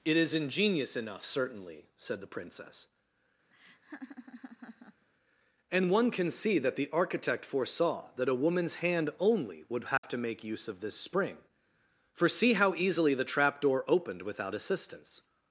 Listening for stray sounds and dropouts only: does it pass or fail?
fail